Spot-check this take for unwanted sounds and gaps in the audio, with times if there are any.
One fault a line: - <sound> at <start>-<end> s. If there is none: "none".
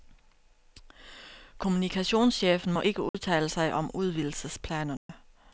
- dropout at 3.1-3.1 s
- dropout at 5.0-5.1 s